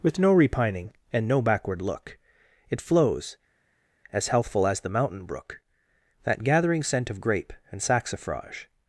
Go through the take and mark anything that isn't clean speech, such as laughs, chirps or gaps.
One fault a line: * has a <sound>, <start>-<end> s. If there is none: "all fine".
all fine